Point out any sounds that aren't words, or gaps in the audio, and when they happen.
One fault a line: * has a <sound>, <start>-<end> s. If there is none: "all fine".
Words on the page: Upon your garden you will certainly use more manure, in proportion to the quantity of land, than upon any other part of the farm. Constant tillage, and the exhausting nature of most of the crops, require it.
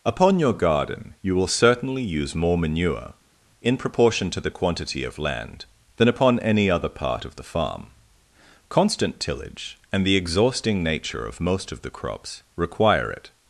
all fine